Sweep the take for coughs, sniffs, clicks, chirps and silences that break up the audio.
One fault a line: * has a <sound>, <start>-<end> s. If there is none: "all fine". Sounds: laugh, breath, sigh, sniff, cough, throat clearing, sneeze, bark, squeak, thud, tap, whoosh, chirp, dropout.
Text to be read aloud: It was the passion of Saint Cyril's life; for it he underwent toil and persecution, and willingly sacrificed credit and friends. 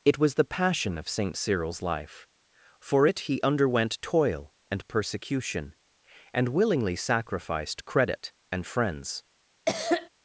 * has a cough, 9.7-10.1 s